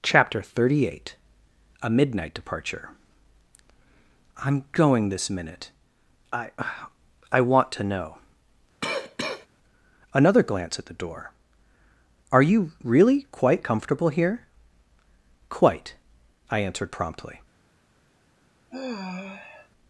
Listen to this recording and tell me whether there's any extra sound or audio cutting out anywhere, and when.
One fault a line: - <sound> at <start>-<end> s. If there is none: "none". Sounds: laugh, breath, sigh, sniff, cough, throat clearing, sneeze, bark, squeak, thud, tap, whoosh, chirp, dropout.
- cough at 8.8-9.5 s
- sigh at 18.7-19.7 s